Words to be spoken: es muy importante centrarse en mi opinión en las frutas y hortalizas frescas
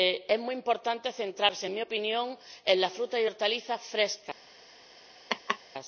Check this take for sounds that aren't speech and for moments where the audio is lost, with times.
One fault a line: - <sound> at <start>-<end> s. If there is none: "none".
- laugh at 5.3-5.6 s